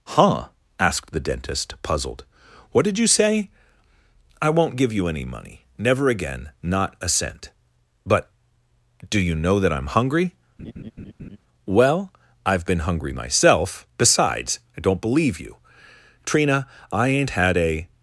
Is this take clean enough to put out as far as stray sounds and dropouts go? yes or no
no